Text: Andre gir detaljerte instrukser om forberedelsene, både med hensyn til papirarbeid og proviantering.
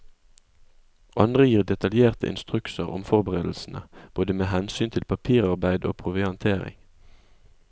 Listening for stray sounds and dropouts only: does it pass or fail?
pass